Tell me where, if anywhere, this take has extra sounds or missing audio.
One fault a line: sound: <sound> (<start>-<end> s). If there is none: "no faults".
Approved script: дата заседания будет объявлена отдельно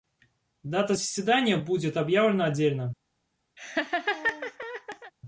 sound: laugh (3.6-5.1 s)